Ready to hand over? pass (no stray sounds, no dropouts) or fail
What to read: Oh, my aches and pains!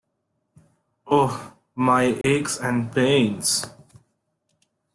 fail